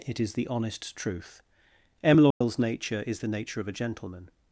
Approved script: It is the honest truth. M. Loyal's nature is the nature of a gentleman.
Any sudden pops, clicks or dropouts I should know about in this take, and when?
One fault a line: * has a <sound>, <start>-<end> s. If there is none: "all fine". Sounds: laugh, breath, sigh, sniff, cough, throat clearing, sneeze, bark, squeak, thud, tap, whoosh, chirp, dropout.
* has a dropout, 2.3-2.4 s